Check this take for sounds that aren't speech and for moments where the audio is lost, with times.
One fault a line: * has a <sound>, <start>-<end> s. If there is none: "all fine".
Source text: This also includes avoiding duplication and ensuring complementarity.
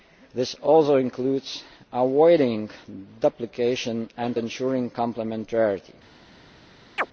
* has a chirp, 7.0-7.1 s